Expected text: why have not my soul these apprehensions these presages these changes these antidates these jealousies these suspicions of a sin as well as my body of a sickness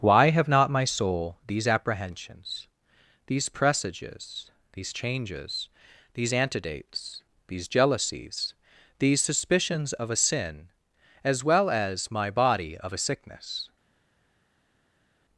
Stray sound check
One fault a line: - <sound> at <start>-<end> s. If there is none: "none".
none